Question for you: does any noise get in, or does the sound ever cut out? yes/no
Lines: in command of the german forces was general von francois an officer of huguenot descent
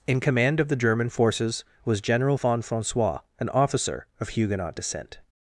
no